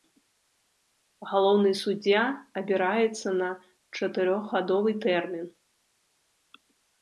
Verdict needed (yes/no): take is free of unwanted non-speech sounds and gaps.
yes